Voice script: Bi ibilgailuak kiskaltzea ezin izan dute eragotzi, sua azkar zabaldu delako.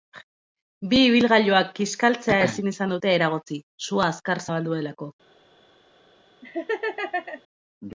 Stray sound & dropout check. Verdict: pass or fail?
fail